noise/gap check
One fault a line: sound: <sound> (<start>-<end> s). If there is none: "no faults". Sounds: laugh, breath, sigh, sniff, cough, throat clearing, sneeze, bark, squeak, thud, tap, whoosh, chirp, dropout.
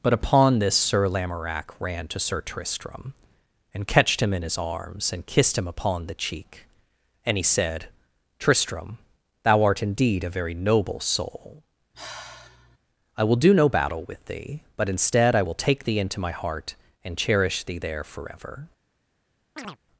sound: sigh (11.9-12.8 s)
sound: chirp (19.6-19.8 s)